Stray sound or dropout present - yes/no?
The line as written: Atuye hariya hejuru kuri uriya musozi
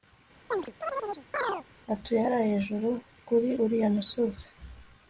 yes